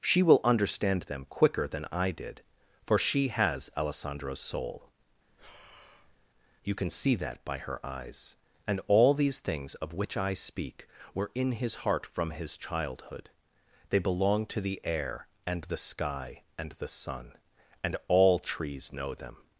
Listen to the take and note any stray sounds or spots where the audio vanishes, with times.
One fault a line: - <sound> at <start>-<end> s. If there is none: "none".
- breath at 5.2-6.3 s